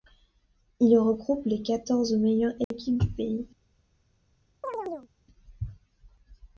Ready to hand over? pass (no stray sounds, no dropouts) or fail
fail